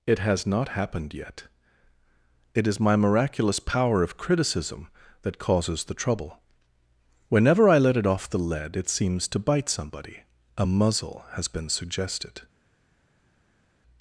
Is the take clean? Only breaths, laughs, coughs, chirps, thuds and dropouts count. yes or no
yes